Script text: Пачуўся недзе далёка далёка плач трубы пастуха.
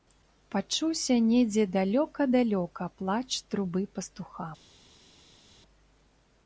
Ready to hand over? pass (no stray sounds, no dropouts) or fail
pass